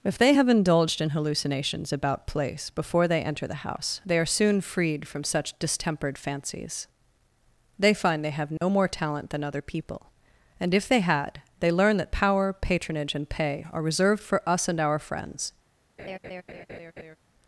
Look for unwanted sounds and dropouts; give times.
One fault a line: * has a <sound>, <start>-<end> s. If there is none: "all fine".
* has a dropout, 8.6-8.6 s
* has a laugh, 16.0-17.2 s